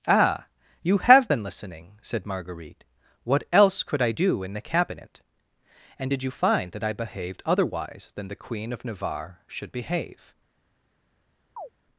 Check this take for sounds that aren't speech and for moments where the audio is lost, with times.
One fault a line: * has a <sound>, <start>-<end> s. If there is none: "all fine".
* has a chirp, 11.6-11.7 s